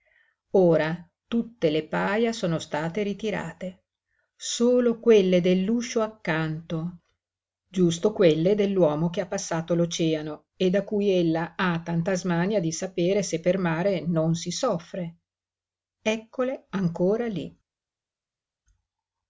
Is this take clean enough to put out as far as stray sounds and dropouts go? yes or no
yes